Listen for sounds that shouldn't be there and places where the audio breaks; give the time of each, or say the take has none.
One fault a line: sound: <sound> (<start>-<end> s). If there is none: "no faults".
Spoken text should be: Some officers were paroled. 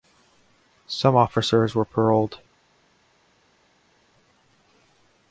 no faults